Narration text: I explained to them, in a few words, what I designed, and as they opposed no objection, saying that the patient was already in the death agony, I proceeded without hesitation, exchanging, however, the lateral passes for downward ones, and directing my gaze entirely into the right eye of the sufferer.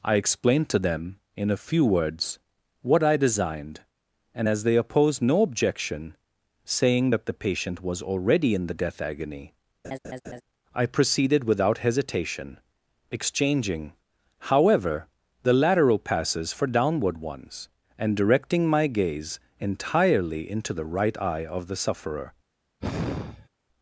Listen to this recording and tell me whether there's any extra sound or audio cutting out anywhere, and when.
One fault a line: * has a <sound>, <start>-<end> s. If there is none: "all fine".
* has a laugh, 9.8-10.4 s
* has a sigh, 22.8-23.5 s